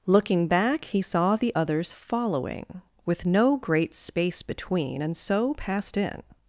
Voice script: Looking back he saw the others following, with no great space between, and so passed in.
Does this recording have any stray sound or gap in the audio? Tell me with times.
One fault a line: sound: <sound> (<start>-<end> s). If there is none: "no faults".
no faults